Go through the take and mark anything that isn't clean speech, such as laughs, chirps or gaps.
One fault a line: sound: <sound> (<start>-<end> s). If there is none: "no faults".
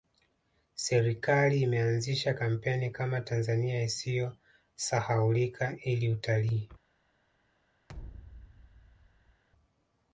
sound: thud (7.9-9.4 s)